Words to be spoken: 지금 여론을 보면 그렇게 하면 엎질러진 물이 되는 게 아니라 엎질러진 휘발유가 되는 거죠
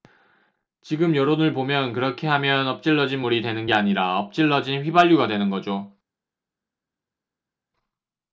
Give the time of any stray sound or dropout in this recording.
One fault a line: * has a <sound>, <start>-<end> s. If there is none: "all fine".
all fine